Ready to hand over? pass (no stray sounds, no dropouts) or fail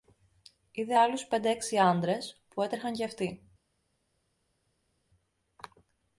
pass